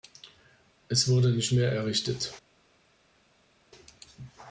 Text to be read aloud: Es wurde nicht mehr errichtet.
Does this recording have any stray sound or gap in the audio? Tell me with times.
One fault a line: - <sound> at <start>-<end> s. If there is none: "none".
none